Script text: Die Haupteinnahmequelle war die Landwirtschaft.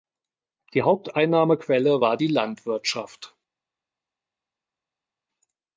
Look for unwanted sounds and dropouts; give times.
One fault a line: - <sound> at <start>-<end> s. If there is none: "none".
none